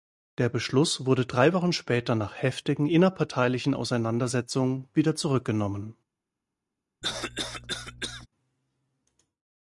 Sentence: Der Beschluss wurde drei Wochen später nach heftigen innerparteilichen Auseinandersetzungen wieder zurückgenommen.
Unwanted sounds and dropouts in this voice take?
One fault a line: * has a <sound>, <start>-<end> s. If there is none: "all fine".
* has a cough, 7.0-8.3 s